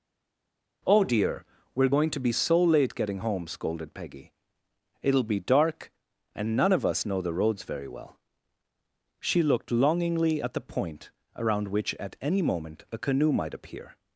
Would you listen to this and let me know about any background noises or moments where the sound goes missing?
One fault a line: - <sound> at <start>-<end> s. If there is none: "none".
none